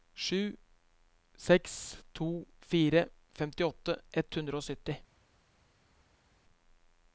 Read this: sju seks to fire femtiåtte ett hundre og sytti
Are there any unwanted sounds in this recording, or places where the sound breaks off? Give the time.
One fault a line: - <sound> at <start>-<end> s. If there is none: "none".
none